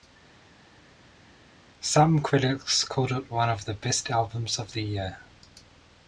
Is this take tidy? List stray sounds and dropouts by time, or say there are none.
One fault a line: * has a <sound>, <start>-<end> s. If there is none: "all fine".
all fine